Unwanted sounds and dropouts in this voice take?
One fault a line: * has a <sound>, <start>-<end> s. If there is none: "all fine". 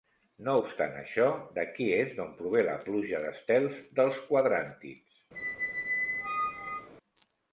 * has a squeak, 5.3-6.9 s